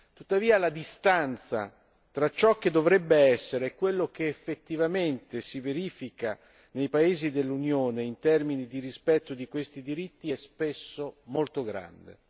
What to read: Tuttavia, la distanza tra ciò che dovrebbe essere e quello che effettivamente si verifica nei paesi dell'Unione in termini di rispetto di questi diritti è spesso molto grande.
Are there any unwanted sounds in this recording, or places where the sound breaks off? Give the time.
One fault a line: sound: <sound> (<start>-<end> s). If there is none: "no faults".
no faults